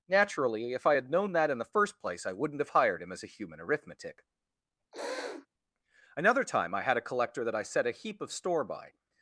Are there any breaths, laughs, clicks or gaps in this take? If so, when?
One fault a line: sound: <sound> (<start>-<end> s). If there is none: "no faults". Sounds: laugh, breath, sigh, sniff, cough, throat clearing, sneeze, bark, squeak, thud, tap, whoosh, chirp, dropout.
sound: sniff (4.9-5.5 s)